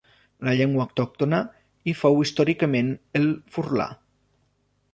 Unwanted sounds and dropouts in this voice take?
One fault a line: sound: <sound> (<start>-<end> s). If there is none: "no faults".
no faults